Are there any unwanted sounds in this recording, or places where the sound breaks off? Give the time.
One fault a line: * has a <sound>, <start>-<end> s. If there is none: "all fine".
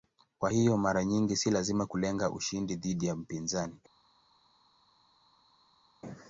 all fine